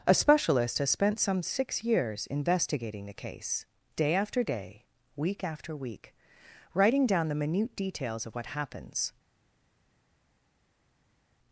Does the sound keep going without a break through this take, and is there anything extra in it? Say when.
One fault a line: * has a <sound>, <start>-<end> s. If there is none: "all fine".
all fine